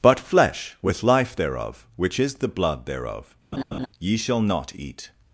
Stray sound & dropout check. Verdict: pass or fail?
fail